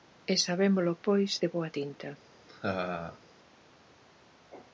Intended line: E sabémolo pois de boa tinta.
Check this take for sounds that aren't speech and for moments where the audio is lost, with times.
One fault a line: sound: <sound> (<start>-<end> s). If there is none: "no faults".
sound: laugh (2.5-3.2 s)